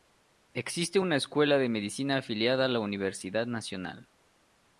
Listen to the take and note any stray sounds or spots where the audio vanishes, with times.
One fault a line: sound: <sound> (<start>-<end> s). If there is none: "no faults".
no faults